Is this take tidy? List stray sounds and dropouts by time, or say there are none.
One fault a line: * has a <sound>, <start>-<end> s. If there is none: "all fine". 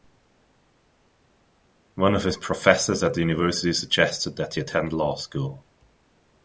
all fine